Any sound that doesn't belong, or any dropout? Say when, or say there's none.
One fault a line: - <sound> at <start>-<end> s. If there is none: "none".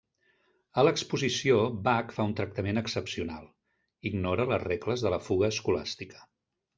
none